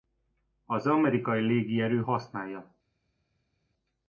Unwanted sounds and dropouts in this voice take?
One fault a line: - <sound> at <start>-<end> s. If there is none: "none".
none